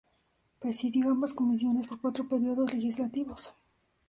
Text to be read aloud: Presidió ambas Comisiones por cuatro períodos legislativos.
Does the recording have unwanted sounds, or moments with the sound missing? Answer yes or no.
no